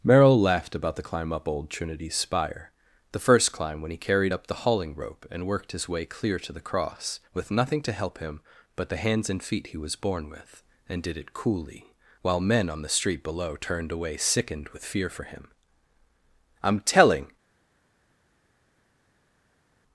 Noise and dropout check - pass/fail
pass